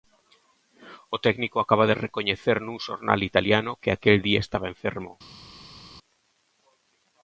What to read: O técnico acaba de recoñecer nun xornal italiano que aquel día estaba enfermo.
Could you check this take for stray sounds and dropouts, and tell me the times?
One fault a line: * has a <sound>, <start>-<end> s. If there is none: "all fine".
all fine